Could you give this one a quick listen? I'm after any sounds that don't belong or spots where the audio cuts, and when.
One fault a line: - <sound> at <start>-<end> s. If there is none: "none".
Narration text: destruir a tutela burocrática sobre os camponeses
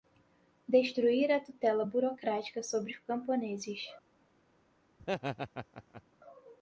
- laugh at 5.0-6.0 s